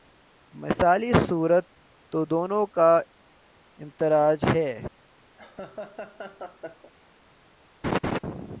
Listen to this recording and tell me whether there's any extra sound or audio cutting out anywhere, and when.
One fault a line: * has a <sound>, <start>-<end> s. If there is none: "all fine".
* has a laugh, 5.4-6.9 s
* has a laugh, 7.8-8.2 s